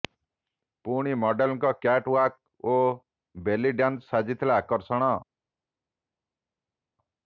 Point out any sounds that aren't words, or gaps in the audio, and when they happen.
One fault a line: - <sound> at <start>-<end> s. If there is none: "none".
none